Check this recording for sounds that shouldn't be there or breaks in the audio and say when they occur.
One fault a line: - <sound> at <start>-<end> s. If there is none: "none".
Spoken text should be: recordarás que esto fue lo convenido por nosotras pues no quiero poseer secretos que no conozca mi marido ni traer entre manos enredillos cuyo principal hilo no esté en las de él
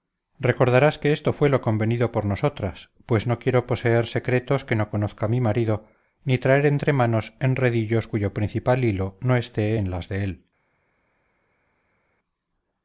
none